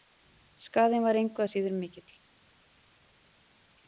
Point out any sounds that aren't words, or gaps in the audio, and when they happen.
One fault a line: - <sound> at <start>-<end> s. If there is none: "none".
none